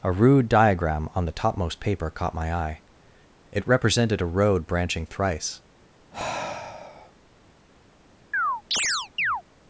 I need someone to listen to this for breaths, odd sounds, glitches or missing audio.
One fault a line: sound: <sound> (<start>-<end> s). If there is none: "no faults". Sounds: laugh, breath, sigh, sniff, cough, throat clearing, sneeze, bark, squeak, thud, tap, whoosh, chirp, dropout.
sound: sigh (6.1-7.1 s)
sound: chirp (8.3-9.4 s)